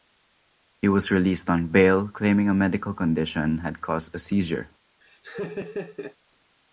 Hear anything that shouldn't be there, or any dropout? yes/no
yes